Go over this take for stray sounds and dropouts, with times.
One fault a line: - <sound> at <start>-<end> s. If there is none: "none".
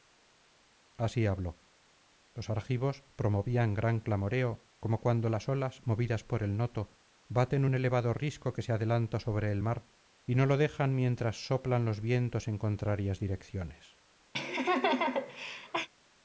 - laugh at 14.3-15.9 s